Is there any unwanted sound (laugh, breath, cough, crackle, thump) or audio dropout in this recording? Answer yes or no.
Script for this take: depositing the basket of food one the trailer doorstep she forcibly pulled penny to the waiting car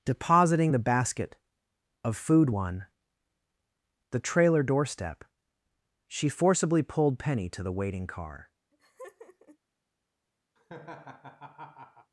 yes